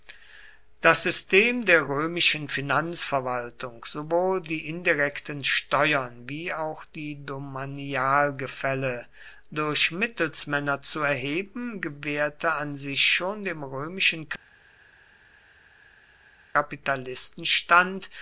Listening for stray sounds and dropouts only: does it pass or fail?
pass